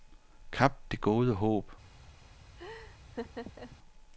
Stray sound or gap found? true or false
true